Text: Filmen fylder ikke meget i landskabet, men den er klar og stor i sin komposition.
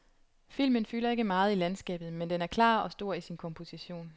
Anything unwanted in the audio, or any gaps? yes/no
no